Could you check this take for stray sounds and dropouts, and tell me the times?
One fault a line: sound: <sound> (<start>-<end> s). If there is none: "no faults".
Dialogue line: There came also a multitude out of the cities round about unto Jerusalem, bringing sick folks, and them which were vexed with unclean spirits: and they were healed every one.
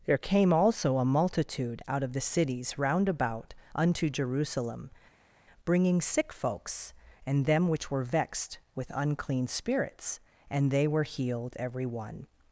no faults